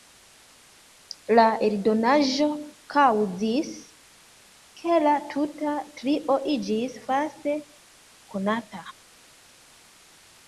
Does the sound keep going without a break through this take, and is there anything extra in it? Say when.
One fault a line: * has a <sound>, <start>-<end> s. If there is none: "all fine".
all fine